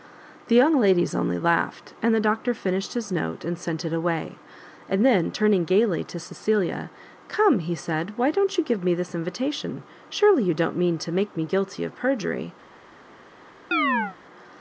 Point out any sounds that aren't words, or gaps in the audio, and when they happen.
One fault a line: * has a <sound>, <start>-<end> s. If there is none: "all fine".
* has a chirp, 13.7-14.2 s